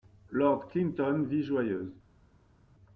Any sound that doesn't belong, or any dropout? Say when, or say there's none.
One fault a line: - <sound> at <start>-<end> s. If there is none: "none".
none